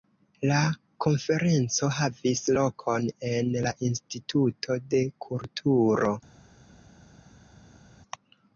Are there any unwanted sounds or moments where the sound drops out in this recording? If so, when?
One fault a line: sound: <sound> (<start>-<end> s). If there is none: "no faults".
no faults